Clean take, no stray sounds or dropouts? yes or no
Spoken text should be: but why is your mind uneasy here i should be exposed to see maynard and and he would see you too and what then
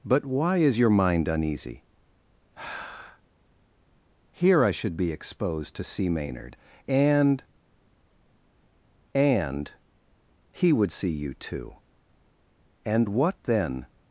yes